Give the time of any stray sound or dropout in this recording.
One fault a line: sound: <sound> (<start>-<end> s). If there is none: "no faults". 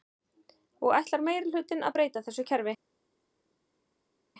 no faults